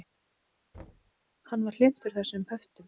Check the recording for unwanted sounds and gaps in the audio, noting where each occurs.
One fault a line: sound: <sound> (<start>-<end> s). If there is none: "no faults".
sound: thud (0.7-1.1 s)